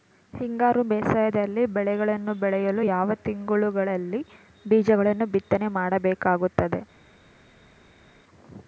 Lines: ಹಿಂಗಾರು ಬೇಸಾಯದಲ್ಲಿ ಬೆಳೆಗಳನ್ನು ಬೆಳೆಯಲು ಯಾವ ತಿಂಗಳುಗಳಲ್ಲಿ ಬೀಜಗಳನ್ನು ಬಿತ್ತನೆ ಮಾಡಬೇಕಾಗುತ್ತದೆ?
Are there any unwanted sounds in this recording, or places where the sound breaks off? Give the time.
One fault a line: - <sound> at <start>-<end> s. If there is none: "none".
none